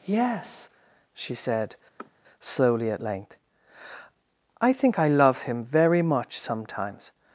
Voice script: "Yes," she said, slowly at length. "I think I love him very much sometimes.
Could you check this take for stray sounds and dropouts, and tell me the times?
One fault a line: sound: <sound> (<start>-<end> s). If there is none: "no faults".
sound: sniff (2.0-2.1 s)